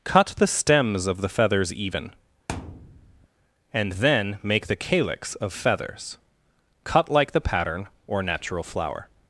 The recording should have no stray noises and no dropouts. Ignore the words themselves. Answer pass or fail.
fail